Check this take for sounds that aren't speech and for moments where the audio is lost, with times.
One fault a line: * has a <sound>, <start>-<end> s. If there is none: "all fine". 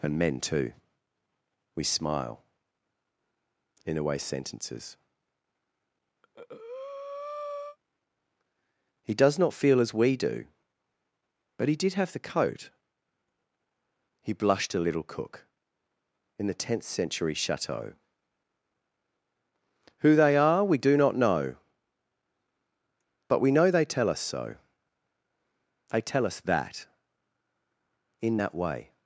* has a breath, 6.2-7.8 s